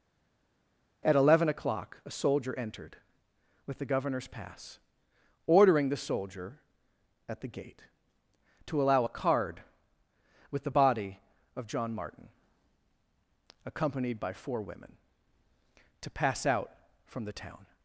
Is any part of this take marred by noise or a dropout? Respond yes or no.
no